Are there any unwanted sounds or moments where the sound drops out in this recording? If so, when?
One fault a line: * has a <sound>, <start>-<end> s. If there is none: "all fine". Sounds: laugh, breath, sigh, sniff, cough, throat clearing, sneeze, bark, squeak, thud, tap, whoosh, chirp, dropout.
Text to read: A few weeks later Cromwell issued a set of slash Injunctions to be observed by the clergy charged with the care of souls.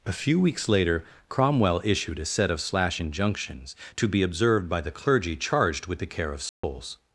* has a dropout, 6.5-6.6 s